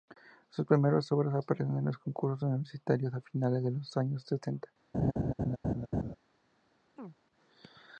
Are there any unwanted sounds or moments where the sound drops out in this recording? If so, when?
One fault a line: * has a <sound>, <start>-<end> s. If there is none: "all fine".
* has a laugh, 4.9-6.1 s
* has a chirp, 7.0-7.2 s